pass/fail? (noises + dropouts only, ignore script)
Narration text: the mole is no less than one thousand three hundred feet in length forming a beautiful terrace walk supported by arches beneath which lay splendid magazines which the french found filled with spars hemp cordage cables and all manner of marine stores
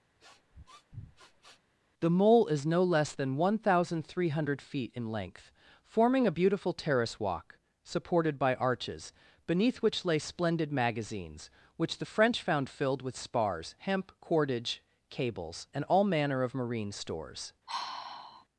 fail